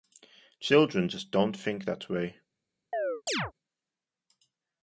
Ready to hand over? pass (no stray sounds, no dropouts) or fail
fail